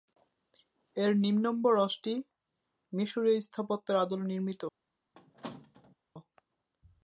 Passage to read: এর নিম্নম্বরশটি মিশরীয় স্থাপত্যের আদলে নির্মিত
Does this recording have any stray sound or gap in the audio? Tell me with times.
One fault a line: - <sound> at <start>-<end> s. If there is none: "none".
- squeak at 5.1-6.0 s